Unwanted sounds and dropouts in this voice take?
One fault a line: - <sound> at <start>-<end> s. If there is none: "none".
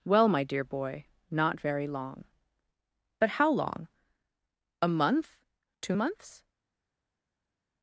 none